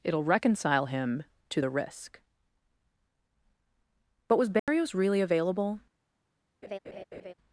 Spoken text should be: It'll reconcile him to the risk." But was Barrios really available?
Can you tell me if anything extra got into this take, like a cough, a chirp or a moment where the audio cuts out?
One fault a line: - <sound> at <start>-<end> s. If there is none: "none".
- dropout at 4.6-4.7 s
- laugh at 6.6-7.3 s